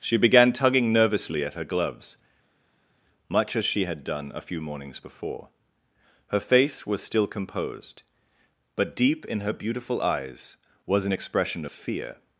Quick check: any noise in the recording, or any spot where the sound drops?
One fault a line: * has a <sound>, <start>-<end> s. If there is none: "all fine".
all fine